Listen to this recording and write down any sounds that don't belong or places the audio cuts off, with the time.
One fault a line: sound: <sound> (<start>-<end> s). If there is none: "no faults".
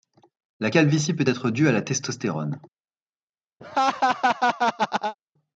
sound: laugh (3.6-5.1 s)